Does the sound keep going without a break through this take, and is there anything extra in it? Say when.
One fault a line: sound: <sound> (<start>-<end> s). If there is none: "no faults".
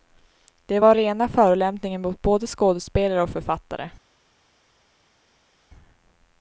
no faults